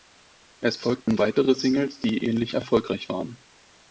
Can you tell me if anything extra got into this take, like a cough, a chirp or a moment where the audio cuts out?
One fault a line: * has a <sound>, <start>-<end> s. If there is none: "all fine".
* has a dropout, 1.0-1.1 s